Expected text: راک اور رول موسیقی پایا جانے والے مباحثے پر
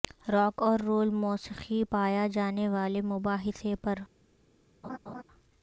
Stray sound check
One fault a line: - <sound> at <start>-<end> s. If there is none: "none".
- laugh at 4.8-5.2 s